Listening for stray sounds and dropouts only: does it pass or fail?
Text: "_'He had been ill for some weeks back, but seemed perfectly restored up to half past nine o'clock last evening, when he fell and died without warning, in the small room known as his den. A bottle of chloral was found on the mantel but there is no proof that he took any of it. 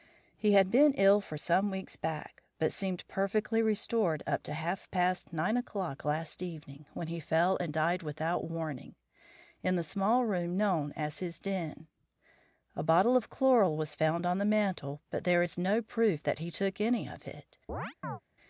fail